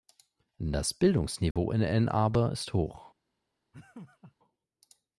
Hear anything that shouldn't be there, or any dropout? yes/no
yes